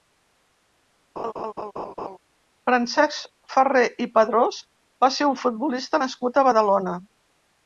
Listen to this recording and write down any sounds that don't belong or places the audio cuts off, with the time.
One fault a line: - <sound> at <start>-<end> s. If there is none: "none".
- laugh at 1.2-2.2 s